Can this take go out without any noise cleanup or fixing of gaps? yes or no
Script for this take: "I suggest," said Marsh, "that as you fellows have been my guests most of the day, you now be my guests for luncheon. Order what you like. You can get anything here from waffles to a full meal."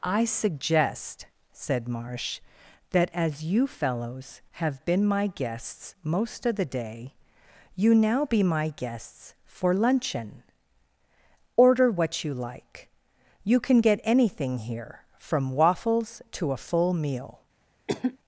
no